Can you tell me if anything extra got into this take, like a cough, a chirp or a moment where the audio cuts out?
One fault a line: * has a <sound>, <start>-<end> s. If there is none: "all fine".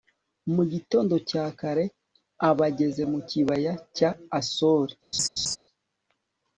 * has a laugh, 5.1-5.6 s